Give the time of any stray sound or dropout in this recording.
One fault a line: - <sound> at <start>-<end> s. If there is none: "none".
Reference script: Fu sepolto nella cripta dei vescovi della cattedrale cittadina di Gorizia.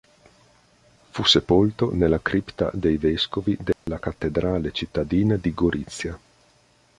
- dropout at 3.7-3.9 s